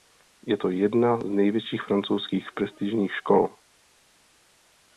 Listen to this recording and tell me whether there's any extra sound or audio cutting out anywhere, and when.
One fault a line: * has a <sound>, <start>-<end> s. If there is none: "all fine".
all fine